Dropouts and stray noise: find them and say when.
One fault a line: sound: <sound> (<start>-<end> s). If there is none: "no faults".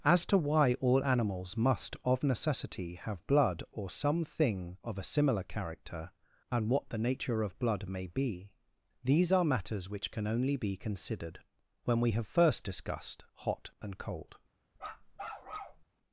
sound: bark (14.8-15.8 s)